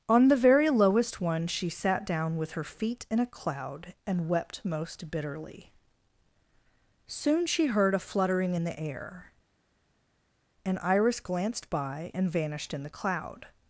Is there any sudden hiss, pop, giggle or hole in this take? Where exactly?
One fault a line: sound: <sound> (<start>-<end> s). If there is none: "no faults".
no faults